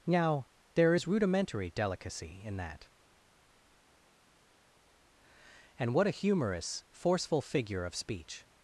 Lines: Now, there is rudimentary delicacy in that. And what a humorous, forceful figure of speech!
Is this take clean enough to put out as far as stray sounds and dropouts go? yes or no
yes